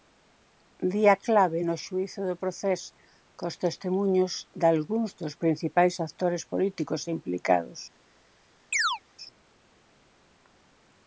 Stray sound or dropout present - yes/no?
yes